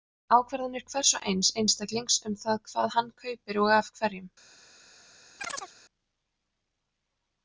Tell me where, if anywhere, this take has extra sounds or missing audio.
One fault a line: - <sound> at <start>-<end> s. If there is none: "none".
- chirp at 5.4-5.7 s